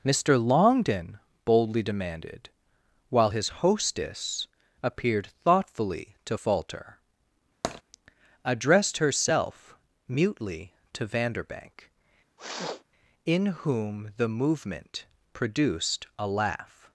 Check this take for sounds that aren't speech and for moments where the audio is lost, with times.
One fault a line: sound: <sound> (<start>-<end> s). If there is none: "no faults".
sound: tap (7.6-7.8 s)
sound: sniff (12.4-12.8 s)